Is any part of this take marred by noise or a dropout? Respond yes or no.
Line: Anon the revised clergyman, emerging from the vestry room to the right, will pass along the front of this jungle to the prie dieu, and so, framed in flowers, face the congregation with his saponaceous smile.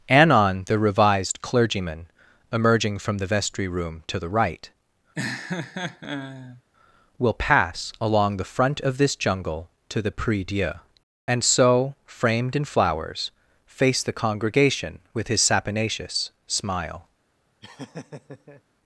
yes